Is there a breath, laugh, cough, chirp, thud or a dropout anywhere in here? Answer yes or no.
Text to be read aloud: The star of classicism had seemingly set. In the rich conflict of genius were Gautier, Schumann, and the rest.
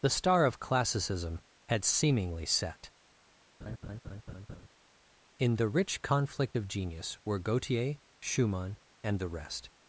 yes